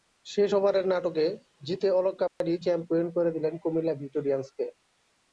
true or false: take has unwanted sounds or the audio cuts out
true